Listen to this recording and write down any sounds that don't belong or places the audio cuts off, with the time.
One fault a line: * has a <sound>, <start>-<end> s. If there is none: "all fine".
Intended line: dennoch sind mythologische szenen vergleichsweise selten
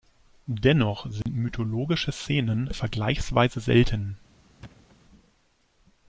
* has a dropout, 1.2-1.3 s
* has a thud, 4.6-5.0 s